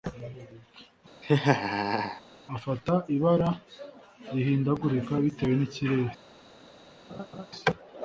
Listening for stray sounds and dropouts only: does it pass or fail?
fail